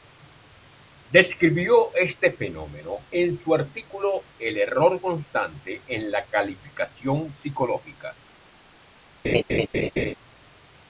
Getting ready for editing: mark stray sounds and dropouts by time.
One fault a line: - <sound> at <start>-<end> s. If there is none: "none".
- laugh at 9.2-10.1 s